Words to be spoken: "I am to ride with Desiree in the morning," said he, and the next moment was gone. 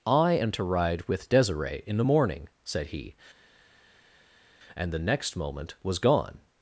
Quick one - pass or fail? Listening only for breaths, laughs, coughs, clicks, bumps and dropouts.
pass